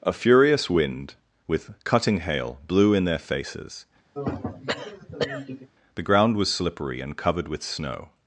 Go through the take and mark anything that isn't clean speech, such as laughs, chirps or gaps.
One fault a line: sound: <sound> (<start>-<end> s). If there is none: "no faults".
sound: throat clearing (4.1-5.7 s)